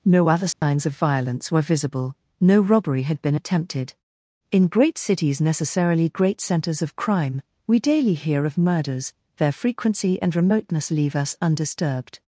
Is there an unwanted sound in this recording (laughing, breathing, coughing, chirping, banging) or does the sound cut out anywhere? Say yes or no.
yes